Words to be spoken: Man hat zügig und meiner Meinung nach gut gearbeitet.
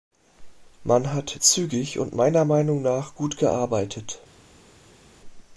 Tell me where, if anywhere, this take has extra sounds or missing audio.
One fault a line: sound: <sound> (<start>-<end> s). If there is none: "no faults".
no faults